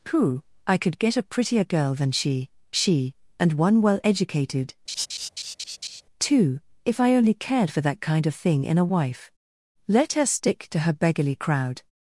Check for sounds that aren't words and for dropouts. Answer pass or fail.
fail